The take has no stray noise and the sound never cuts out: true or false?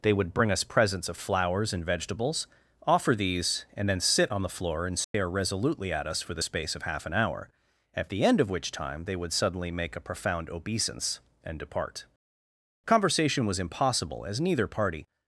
false